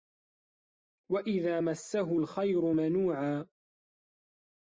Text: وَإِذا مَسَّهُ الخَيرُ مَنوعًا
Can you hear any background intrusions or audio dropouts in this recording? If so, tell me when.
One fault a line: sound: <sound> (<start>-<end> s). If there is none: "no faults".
no faults